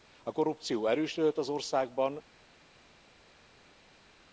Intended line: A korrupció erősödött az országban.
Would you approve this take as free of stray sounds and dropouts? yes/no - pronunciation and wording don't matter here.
yes